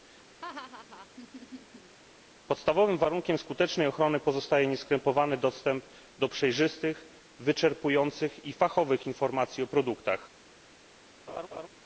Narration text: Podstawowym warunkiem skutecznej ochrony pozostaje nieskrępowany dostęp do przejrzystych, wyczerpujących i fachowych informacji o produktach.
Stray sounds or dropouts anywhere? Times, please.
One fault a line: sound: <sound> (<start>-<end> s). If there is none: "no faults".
sound: laugh (0.4-2.0 s)
sound: laugh (11.3-11.7 s)